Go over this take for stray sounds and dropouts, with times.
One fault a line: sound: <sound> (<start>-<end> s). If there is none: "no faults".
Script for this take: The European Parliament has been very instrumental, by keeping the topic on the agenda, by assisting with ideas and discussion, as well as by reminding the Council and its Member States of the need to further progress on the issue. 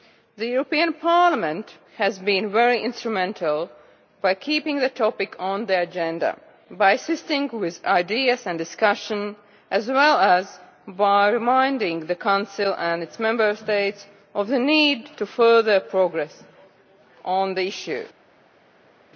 no faults